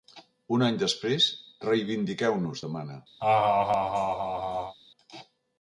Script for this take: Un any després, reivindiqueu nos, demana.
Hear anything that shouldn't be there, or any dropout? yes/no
yes